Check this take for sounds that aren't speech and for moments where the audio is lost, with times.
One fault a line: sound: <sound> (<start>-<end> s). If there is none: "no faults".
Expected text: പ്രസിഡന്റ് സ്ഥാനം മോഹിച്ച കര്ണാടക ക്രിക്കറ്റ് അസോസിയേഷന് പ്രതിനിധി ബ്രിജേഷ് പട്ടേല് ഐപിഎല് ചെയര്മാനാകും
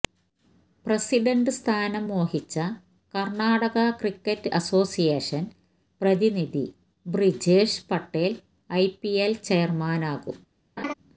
sound: laugh (10.8-10.9 s)